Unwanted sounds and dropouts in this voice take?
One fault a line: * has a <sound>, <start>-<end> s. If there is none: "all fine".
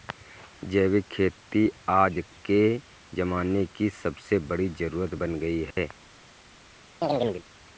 * has a dropout, 5.7-5.8 s
* has a chirp, 7.0-7.4 s